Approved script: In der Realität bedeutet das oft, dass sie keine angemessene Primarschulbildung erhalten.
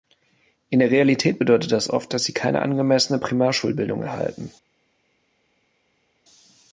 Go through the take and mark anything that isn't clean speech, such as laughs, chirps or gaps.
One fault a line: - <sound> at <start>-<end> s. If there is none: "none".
none